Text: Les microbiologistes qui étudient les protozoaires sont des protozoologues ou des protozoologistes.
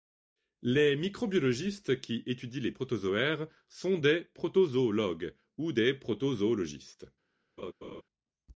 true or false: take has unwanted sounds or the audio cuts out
true